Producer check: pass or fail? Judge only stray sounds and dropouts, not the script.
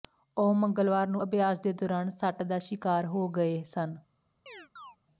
fail